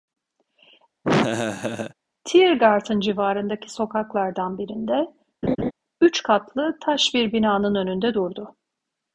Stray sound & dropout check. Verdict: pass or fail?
fail